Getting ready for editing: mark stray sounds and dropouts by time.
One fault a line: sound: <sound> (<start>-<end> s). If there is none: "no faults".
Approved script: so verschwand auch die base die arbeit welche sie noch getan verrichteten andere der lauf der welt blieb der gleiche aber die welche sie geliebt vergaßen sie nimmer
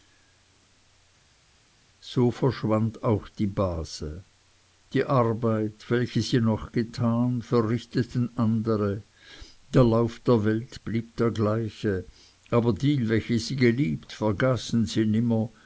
no faults